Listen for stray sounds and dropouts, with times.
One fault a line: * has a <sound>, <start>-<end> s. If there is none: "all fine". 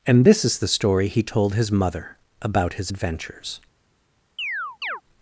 * has a chirp, 4.4-5.0 s